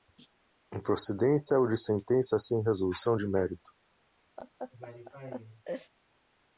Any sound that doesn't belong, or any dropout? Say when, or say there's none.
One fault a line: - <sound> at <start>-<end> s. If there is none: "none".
- laugh at 4.4-5.9 s